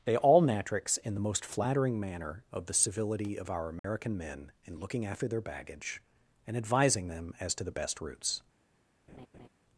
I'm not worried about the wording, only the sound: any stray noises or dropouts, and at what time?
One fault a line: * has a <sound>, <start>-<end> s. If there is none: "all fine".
* has a dropout, 3.8-3.8 s
* has a laugh, 9.1-9.5 s